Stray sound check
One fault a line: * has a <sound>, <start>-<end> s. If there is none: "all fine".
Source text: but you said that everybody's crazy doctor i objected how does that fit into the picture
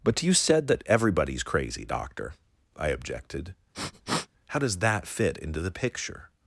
* has a sniff, 3.7-4.3 s